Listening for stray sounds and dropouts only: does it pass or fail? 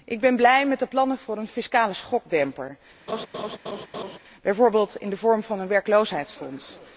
fail